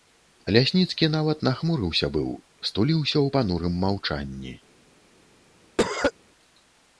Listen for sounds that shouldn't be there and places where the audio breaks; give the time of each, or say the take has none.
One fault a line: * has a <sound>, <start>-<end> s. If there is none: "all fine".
* has a cough, 5.8-6.1 s